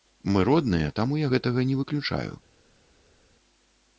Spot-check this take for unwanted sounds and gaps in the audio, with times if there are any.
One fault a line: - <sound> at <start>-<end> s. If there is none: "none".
none